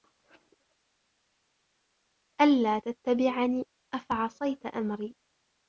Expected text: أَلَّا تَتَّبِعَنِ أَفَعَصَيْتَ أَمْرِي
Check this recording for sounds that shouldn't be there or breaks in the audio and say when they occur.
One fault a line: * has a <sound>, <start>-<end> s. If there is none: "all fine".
all fine